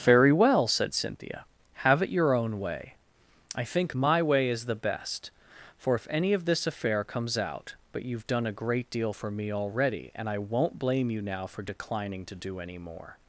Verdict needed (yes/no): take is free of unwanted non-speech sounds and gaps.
yes